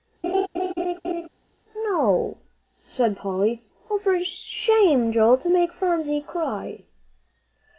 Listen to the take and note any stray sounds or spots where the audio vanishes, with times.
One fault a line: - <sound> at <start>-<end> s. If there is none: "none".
- laugh at 0.2-1.3 s